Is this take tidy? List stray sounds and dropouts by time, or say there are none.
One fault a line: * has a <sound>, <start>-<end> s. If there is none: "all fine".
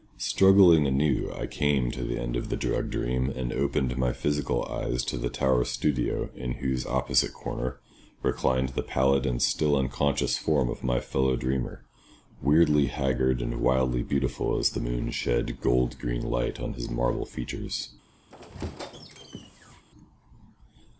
* has a squeak, 18.3-19.8 s